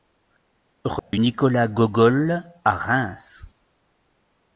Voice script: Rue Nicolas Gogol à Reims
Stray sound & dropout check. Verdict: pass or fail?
fail